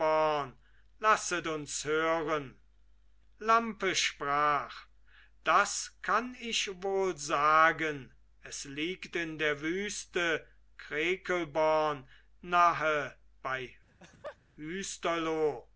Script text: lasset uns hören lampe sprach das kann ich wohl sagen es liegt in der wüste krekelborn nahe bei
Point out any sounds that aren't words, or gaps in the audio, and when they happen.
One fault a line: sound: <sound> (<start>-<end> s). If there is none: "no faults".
sound: laugh (13.9-14.4 s)